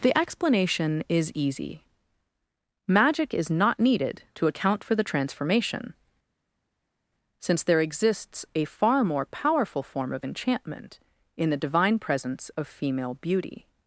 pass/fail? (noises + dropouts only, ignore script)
pass